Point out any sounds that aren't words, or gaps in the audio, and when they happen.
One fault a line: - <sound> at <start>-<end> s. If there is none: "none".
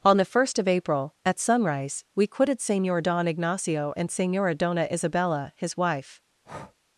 - breath at 6.4-6.8 s